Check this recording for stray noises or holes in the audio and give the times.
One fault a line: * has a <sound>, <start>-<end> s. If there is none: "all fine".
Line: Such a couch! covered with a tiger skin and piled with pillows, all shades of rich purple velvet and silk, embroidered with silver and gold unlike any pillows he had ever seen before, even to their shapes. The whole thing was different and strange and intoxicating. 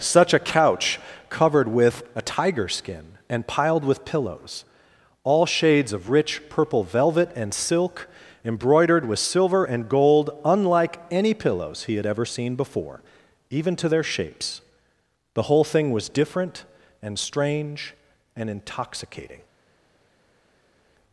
all fine